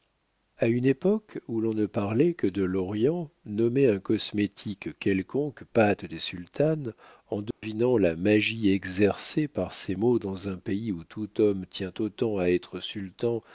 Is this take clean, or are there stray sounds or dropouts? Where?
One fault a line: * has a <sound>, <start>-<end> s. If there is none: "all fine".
* has a dropout, 7.5-7.6 s